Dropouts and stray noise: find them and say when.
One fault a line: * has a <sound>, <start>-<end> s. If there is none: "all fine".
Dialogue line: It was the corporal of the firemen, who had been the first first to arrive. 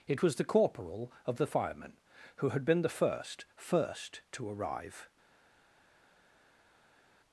all fine